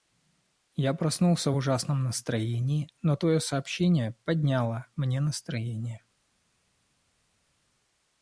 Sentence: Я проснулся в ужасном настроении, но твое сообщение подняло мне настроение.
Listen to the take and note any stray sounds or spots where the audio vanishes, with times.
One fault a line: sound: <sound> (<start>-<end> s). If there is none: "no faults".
no faults